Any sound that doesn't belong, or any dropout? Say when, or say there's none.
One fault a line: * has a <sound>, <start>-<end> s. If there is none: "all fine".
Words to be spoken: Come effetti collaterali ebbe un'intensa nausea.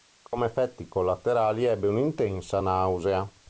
* has a dropout, 0.3-0.3 s